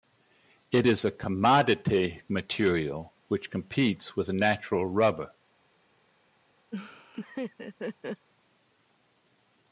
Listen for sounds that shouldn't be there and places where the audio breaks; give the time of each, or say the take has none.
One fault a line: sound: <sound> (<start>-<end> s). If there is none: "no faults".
sound: laugh (6.7-8.3 s)